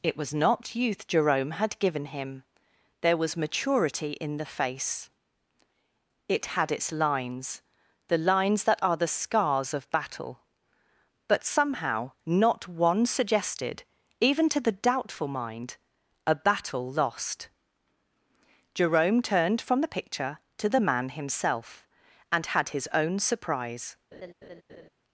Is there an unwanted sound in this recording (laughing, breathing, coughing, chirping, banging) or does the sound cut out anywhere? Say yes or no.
yes